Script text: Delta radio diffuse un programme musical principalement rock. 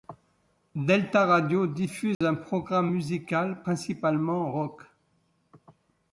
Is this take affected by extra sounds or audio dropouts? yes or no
yes